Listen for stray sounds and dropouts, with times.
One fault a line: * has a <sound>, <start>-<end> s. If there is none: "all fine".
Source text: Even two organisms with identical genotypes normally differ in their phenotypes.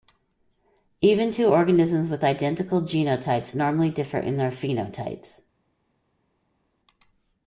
all fine